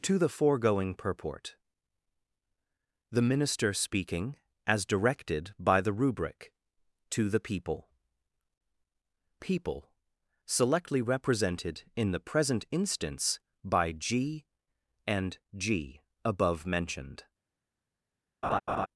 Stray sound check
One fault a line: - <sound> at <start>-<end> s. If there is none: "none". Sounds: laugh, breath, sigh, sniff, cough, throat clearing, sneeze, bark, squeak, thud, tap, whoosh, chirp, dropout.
- laugh at 18.4-18.9 s